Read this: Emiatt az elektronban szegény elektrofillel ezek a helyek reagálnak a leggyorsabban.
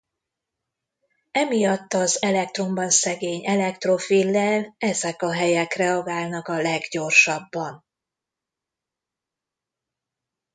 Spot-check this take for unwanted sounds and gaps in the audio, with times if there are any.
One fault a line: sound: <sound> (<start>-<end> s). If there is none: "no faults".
no faults